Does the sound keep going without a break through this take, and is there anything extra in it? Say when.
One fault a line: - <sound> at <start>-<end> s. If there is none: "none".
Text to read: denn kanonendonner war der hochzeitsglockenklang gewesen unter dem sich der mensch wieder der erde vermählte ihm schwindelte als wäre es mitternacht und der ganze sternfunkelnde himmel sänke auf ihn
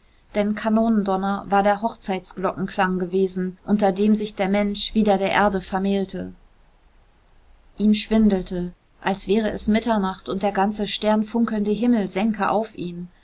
none